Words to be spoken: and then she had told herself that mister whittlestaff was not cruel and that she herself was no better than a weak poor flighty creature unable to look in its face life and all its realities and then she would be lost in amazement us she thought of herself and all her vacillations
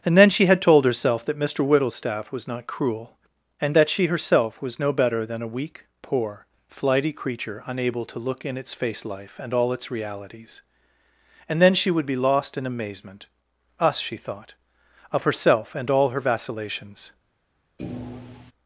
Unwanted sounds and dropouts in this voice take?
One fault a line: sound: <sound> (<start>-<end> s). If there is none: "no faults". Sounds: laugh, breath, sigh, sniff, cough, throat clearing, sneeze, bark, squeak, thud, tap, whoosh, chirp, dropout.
sound: thud (17.8-18.5 s)